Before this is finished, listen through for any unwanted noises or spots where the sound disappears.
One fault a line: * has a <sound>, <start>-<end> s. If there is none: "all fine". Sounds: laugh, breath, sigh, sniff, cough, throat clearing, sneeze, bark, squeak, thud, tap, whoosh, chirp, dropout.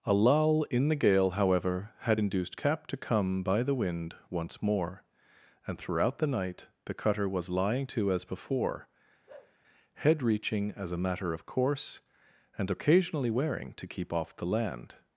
* has a bark, 9.3-9.6 s